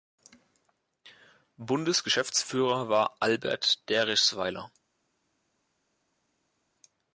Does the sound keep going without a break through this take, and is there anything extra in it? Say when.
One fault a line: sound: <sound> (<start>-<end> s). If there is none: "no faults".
no faults